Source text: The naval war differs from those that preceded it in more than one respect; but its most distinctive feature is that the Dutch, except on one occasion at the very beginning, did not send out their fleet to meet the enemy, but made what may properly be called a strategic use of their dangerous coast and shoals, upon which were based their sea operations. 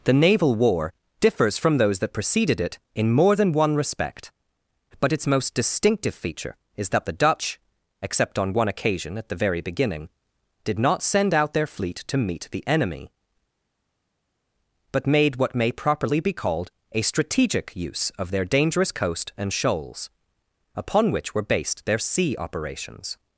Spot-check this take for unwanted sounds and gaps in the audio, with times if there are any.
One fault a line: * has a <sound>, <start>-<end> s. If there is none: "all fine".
all fine